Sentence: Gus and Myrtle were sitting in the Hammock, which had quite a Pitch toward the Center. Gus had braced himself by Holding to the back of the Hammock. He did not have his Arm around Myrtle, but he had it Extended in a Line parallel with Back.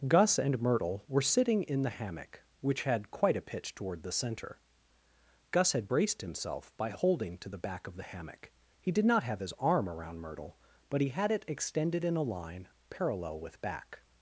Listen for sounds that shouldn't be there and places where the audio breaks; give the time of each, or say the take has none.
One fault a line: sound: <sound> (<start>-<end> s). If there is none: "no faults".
no faults